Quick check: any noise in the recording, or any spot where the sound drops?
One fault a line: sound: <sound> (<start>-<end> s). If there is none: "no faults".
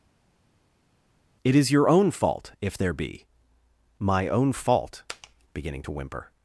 no faults